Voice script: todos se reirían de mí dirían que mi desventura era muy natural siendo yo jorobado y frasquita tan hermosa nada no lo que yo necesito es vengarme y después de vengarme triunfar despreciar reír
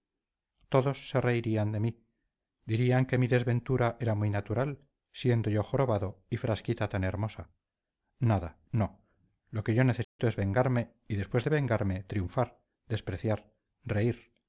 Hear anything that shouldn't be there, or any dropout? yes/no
yes